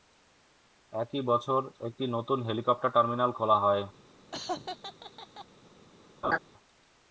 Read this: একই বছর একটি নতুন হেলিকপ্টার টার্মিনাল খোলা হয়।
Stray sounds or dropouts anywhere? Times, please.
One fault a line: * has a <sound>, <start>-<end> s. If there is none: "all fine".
* has a laugh, 4.3-5.5 s
* has a laugh, 6.2-6.4 s